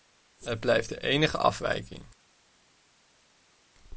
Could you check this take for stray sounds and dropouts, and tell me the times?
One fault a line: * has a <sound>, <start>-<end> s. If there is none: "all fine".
all fine